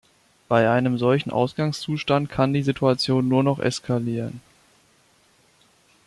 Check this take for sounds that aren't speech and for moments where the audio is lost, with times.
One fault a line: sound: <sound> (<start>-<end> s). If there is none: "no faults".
no faults